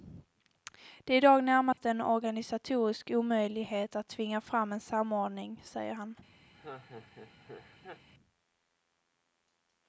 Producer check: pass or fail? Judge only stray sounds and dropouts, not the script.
fail